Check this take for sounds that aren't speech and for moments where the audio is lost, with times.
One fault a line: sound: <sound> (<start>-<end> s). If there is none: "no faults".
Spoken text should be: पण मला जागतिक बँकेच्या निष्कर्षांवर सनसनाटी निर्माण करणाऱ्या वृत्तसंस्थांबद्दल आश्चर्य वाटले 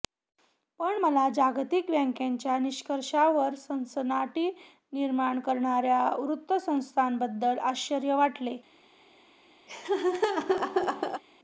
sound: laugh (9.7-11.2 s)